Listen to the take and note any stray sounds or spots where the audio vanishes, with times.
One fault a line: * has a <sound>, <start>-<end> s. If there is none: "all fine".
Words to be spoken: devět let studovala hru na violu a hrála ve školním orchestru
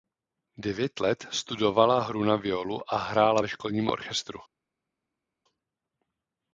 all fine